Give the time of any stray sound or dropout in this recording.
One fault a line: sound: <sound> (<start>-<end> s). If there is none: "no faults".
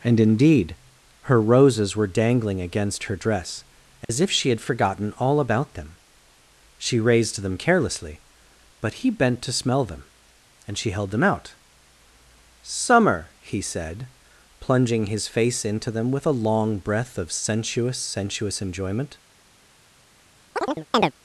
sound: dropout (4.0-4.1 s)
sound: chirp (20.6-21.1 s)